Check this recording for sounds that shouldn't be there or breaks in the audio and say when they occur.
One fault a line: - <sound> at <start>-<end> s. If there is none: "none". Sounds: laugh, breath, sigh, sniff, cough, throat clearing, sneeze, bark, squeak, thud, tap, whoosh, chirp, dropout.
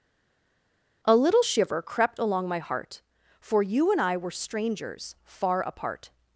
none